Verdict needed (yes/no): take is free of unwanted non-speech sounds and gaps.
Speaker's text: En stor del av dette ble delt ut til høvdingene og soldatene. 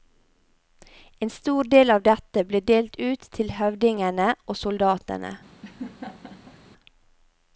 no